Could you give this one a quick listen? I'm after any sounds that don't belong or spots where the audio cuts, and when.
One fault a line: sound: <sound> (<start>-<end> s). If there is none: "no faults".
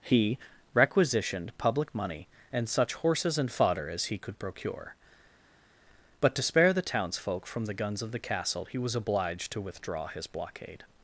no faults